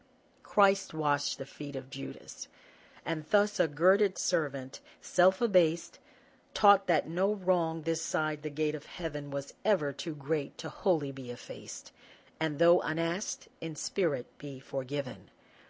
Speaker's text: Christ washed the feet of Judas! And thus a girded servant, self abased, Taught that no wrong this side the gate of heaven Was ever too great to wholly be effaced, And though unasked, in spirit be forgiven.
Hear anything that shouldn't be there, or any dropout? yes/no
no